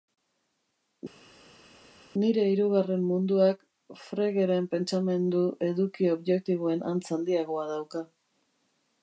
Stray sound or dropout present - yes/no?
no